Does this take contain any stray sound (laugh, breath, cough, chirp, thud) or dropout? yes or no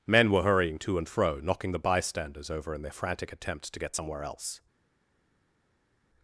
no